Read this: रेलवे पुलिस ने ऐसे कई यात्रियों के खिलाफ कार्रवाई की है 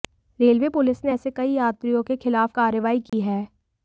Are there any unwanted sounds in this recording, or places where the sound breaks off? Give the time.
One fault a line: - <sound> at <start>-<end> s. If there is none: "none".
- dropout at 3.1-3.1 s